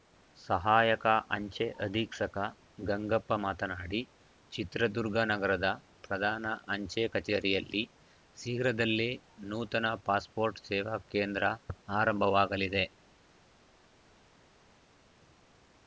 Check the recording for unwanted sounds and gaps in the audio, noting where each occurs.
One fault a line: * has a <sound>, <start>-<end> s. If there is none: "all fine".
all fine